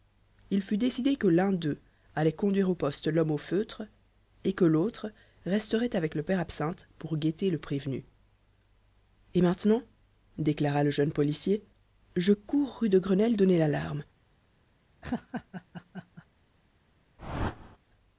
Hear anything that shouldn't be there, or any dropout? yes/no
yes